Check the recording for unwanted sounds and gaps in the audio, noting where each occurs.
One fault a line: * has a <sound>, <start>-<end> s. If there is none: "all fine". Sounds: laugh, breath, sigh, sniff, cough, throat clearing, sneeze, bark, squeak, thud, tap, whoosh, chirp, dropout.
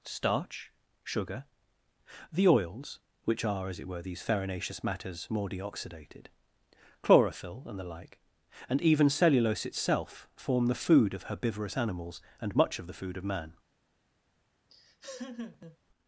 * has a laugh, 14.7-15.8 s